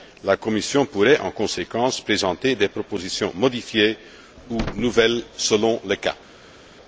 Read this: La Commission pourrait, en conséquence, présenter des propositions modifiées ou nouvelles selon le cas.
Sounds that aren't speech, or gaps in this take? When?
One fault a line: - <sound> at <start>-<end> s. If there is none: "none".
none